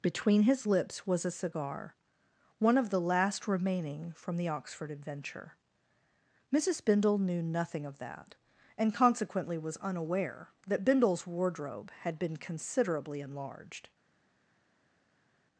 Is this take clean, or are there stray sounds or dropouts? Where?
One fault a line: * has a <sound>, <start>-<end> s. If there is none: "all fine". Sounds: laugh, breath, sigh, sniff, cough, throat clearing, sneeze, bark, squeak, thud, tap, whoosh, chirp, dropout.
all fine